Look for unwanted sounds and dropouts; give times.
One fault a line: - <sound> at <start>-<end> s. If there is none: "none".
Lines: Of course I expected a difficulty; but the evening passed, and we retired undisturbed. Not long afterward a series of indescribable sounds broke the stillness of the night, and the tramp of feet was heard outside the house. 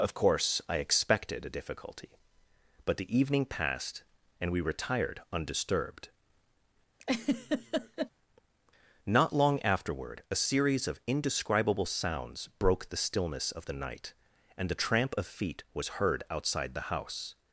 - laugh at 7.0-8.1 s